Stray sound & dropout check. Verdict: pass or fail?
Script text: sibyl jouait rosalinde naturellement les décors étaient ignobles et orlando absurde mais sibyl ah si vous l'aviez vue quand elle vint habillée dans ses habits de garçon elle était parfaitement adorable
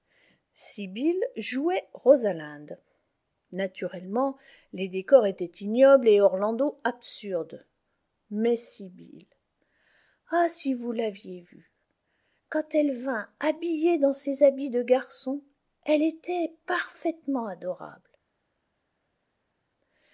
pass